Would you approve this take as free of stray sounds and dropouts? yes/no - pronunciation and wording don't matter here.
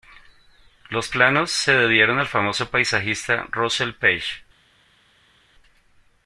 yes